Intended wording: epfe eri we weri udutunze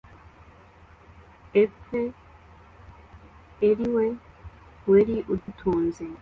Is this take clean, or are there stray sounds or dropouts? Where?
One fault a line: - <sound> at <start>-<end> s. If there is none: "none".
- dropout at 5.4-5.5 s